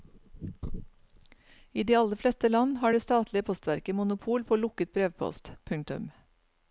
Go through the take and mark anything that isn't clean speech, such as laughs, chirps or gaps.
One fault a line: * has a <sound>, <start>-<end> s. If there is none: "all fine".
all fine